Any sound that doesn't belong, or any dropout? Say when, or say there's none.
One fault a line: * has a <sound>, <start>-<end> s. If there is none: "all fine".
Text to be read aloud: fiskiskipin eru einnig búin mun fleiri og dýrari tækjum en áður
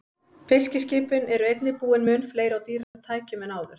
* has a dropout, 2.8-2.9 s